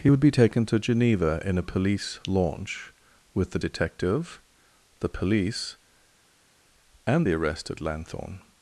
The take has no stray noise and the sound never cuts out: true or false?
true